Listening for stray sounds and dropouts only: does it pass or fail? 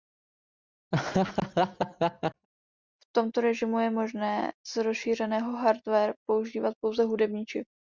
fail